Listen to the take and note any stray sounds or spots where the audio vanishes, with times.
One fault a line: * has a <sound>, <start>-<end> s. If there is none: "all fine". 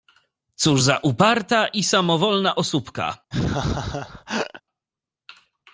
* has a laugh, 3.3-4.6 s